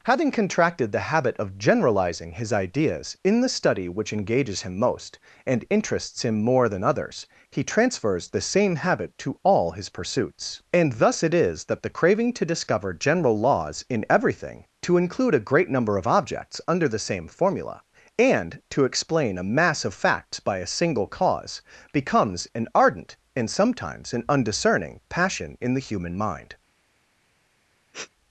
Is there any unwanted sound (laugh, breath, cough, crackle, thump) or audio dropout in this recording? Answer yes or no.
yes